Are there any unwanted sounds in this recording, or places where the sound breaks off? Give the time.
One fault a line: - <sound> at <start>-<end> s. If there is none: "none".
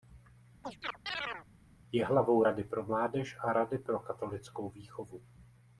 - chirp at 0.6-1.5 s